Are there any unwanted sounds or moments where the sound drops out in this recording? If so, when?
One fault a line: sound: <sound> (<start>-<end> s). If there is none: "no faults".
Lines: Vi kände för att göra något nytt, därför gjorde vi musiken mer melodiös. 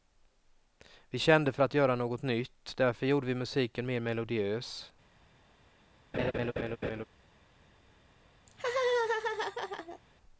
sound: laugh (6.1-7.0 s)
sound: laugh (8.5-10.0 s)